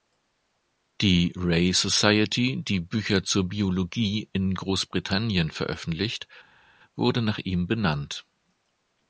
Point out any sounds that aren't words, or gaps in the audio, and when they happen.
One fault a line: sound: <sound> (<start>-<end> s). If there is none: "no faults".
no faults